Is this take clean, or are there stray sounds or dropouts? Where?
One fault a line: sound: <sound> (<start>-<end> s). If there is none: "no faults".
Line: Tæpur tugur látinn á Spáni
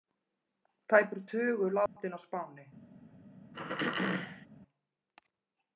sound: dropout (1.9-2.0 s)
sound: throat clearing (3.5-4.5 s)